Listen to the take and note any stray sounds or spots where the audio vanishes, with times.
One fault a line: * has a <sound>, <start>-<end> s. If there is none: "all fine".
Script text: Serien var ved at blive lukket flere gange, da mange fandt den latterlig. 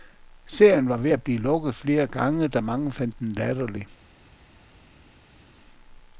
all fine